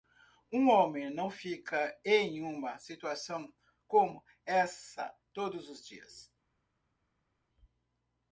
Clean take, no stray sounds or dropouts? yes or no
yes